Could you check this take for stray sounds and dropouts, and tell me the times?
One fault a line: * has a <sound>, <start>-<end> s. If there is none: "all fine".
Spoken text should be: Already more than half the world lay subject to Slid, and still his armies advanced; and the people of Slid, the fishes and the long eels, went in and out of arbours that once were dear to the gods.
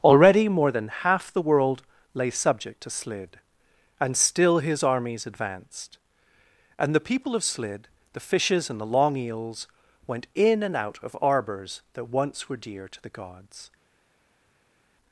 all fine